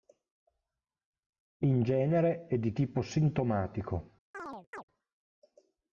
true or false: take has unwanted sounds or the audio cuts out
true